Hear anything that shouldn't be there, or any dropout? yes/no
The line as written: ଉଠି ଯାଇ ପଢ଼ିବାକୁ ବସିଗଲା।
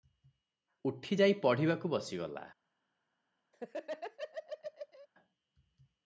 yes